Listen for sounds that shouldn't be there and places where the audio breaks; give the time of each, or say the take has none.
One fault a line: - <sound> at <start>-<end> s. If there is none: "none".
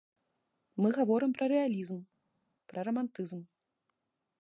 none